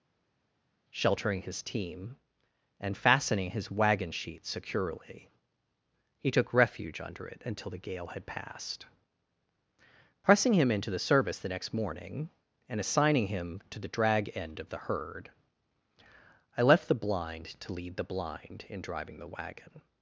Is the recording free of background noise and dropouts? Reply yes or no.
yes